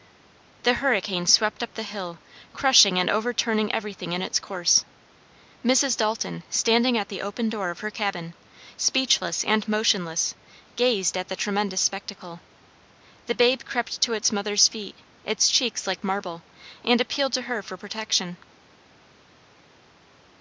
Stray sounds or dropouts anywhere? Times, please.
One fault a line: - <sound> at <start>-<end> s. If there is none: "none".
none